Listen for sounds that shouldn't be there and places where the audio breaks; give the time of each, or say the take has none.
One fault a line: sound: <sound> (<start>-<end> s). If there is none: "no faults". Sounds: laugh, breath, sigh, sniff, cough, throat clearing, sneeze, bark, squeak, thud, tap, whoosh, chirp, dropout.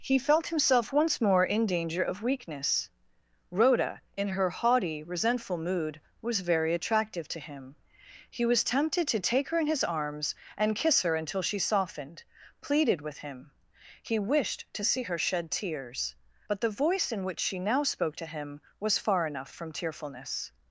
no faults